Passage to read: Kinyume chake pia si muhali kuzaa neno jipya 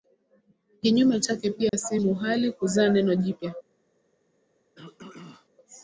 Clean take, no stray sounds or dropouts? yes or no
no